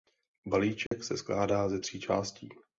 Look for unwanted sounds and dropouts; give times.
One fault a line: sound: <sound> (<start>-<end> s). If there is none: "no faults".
sound: dropout (0.9-0.9 s)